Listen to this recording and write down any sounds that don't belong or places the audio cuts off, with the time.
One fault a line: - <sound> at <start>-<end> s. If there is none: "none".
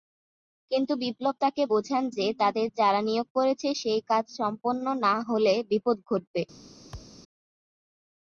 - thud at 6.9-7.2 s